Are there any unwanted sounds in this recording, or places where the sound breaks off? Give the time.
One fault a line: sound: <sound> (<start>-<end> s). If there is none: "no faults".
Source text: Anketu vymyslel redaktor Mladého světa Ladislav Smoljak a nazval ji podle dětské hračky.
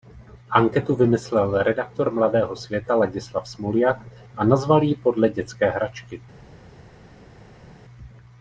no faults